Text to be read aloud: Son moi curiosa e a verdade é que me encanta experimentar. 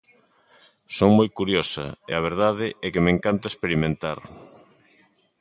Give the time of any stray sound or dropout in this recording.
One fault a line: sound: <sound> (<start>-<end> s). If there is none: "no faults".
no faults